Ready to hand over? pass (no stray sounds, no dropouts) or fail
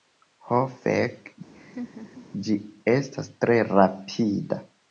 fail